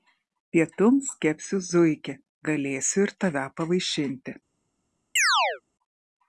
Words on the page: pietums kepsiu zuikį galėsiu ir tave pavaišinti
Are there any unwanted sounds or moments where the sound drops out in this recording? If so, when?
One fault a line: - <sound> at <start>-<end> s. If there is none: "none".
- chirp at 5.2-5.6 s